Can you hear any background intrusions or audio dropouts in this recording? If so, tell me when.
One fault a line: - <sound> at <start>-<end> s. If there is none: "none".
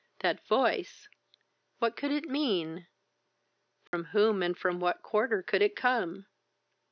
- dropout at 3.9-3.9 s